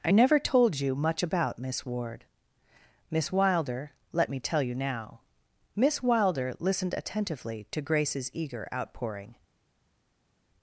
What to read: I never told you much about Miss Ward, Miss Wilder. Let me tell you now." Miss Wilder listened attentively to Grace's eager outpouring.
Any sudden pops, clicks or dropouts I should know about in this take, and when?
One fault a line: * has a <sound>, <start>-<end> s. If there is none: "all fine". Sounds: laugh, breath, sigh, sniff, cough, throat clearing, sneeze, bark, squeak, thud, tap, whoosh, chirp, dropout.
all fine